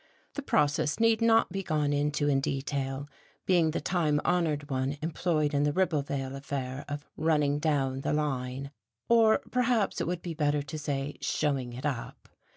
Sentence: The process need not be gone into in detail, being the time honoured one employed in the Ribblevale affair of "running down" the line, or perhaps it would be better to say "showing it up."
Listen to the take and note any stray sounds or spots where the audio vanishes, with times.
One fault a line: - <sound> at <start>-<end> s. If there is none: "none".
none